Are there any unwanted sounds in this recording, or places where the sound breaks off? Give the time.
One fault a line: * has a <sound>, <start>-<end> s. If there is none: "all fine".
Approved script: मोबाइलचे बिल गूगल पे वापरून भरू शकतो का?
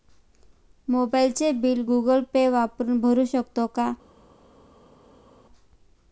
all fine